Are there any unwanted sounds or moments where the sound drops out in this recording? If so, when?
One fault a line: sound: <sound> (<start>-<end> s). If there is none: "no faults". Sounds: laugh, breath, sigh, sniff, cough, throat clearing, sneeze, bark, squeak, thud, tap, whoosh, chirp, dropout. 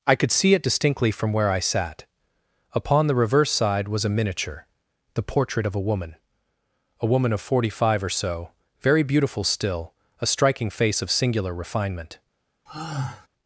sound: sigh (12.7-13.3 s)